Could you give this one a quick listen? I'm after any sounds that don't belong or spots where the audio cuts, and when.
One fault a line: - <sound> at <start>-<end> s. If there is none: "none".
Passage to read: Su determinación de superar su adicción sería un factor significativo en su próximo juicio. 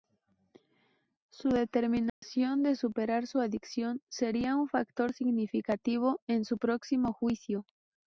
- dropout at 2.1-2.2 s